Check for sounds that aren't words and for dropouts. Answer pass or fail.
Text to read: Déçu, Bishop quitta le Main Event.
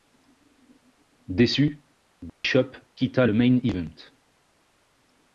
fail